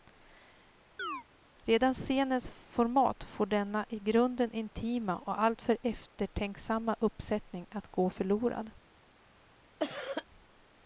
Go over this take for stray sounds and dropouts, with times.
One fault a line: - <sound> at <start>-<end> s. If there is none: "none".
- chirp at 1.0-1.2 s
- cough at 9.8-10.3 s